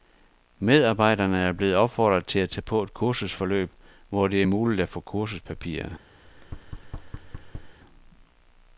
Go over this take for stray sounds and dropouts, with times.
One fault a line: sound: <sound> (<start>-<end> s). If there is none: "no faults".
sound: thud (6.2-7.8 s)